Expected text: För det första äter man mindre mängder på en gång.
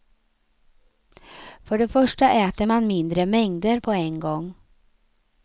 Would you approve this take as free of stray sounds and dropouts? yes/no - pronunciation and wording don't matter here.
yes